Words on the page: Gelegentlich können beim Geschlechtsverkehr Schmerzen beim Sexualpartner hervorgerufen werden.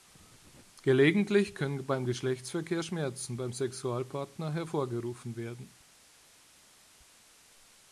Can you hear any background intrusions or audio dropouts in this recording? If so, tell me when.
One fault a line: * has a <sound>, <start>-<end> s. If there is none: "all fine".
all fine